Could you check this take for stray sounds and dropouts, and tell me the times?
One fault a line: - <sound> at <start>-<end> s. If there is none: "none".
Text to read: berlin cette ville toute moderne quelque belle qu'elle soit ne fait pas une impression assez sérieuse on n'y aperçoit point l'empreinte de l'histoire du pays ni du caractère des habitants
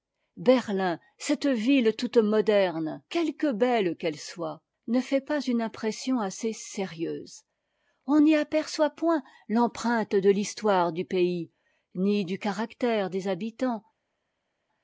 none